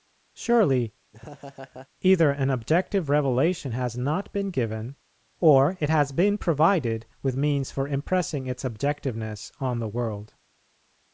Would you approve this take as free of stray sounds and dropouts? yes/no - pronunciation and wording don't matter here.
no